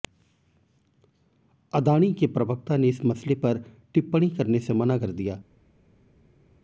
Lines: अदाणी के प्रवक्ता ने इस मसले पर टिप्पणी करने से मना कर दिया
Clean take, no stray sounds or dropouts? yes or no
yes